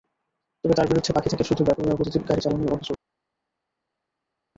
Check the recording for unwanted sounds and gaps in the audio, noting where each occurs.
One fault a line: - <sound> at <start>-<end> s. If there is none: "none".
none